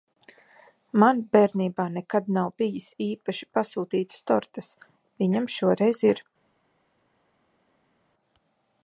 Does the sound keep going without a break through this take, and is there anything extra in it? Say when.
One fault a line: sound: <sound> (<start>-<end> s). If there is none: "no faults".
no faults